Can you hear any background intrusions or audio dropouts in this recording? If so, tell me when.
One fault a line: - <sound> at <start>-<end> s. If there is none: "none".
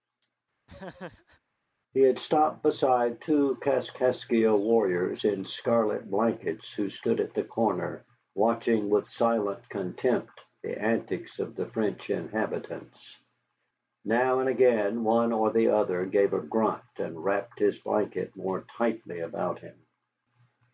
- laugh at 0.7-1.4 s